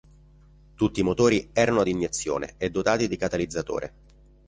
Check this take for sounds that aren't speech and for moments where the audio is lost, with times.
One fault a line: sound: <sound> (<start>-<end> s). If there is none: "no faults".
no faults